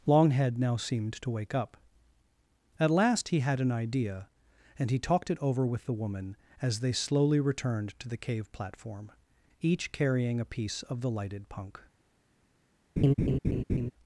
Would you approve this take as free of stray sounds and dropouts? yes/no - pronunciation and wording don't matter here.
no